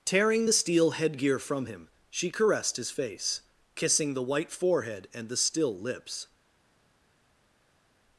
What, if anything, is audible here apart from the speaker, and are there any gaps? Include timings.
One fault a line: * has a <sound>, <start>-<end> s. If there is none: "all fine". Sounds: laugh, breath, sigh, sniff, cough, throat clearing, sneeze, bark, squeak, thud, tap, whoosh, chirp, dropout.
all fine